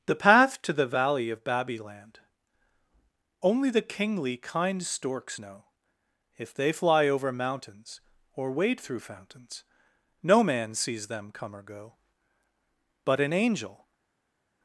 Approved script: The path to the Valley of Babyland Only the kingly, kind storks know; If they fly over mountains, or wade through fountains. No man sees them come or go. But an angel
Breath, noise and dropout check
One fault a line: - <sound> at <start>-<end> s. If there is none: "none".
none